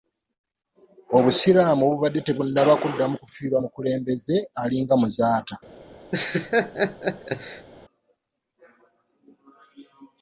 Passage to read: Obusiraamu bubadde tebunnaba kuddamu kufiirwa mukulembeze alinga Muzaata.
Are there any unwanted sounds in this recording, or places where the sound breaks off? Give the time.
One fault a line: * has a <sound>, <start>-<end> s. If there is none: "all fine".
* has a laugh, 6.1-7.7 s